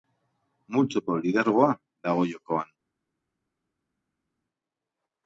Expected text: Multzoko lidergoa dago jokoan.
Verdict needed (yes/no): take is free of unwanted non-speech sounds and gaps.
yes